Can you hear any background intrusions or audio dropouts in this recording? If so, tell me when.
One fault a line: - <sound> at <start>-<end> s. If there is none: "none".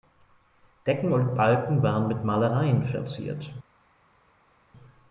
none